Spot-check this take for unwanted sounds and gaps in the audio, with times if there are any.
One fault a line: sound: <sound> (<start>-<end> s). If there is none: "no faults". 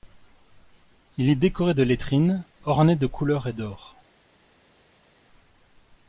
no faults